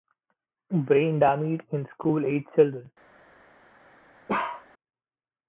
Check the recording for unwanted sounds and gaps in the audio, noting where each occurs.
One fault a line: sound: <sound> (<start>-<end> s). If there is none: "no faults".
sound: bark (4.3-4.7 s)